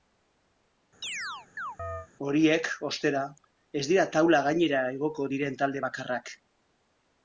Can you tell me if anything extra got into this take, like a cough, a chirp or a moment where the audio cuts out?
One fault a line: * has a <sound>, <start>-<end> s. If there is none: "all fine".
* has a chirp, 1.0-2.1 s